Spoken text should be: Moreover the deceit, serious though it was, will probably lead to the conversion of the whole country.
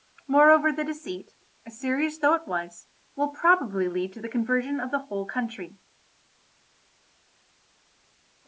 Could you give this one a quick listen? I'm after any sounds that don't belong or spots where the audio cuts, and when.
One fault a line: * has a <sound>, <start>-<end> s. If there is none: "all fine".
all fine